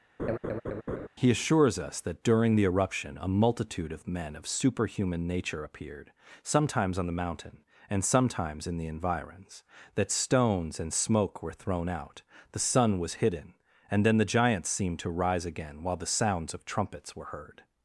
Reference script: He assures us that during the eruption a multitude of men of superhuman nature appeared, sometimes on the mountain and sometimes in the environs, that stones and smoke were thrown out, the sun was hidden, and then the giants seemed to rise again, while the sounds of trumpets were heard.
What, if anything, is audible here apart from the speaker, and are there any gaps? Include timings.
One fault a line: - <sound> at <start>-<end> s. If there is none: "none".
- laugh at 0.2-1.1 s